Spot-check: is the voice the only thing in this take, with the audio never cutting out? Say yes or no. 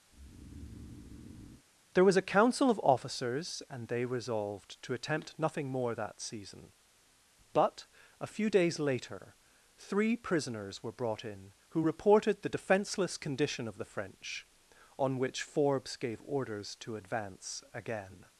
no